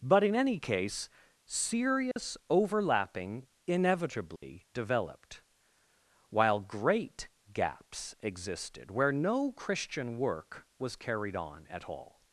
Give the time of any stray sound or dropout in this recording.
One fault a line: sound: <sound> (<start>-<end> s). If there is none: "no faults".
sound: dropout (2.1-2.2 s)
sound: dropout (4.4-4.4 s)